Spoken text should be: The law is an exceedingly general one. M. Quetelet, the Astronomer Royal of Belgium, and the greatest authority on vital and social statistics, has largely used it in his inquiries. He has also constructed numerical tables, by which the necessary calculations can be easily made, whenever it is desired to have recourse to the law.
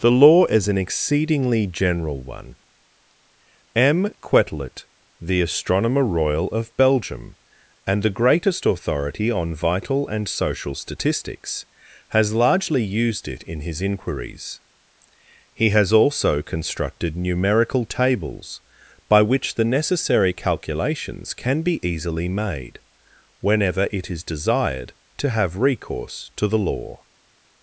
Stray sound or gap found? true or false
false